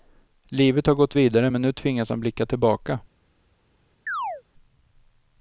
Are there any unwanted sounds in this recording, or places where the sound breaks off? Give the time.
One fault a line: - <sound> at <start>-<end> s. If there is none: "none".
- chirp at 4.1-4.4 s